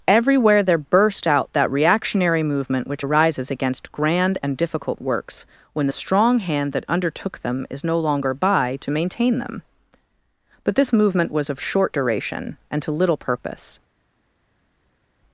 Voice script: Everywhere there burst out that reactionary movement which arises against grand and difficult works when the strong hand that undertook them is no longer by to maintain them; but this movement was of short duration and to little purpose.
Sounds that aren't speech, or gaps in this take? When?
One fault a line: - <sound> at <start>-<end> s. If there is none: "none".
none